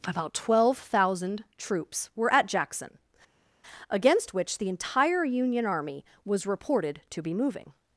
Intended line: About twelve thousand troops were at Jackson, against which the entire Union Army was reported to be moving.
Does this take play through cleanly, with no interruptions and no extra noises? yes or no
yes